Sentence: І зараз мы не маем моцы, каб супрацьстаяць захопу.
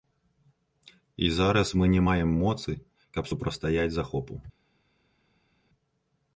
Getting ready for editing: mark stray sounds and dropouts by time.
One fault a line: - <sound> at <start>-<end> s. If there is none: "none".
none